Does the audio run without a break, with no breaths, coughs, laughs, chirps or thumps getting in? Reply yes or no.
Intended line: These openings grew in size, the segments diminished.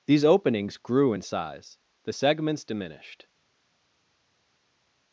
yes